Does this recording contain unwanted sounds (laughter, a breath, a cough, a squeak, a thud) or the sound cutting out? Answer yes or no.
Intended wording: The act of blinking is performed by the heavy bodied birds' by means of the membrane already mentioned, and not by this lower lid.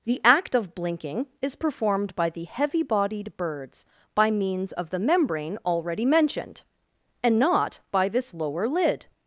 no